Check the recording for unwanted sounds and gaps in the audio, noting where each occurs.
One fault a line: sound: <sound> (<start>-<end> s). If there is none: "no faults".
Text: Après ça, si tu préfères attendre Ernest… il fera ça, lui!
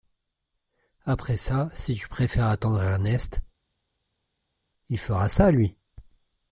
no faults